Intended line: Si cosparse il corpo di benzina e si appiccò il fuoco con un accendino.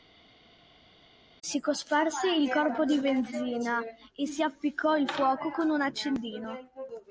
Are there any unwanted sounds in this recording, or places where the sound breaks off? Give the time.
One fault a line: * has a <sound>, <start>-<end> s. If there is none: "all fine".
all fine